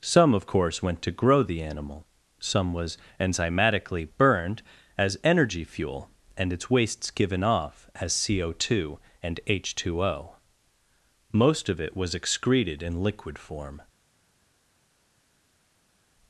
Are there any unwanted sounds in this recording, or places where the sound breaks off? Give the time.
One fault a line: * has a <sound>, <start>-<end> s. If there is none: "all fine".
all fine